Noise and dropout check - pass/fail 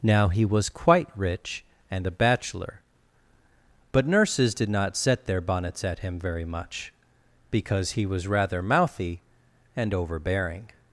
pass